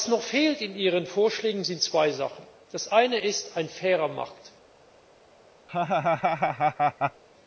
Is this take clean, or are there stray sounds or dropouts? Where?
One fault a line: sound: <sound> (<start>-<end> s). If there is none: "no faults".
sound: laugh (5.7-7.2 s)